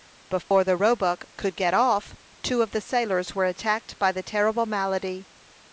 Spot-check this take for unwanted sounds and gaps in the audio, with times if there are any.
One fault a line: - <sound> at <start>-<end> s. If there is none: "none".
- dropout at 0.4-0.5 s